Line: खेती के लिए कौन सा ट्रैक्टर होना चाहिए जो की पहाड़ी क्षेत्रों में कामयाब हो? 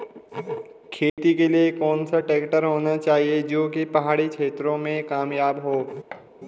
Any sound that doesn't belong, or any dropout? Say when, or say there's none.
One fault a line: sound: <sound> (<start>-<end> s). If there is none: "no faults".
sound: dropout (1.1-1.2 s)
sound: thud (6.1-6.3 s)